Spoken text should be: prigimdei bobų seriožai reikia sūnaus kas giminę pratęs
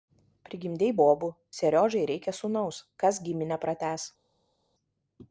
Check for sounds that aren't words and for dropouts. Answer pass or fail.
pass